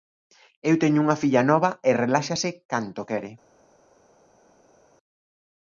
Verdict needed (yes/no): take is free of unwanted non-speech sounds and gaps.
yes